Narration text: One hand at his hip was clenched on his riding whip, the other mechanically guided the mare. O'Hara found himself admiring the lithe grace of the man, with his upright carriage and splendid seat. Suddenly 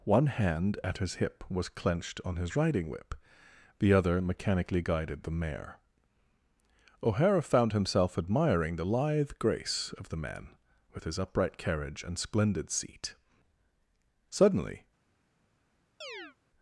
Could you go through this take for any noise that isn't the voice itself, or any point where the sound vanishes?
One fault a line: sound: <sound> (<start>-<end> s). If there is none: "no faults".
sound: chirp (16.0-16.4 s)